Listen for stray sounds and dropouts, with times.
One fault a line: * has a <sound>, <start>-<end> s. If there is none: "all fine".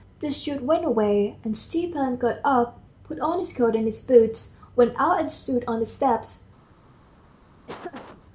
* has a laugh, 7.7-8.2 s